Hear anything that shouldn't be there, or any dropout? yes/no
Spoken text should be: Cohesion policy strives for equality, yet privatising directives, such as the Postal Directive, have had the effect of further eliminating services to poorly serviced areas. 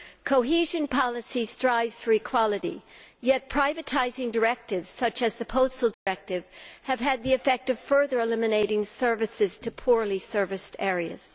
yes